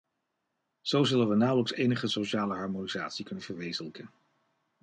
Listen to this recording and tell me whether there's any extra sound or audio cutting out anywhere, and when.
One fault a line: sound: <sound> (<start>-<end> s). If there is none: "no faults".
no faults